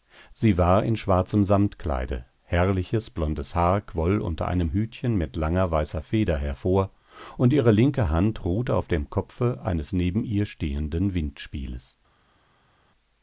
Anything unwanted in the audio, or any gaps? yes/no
no